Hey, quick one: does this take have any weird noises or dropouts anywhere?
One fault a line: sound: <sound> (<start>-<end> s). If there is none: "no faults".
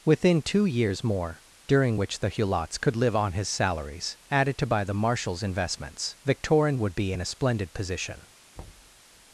sound: thud (8.5-9.0 s)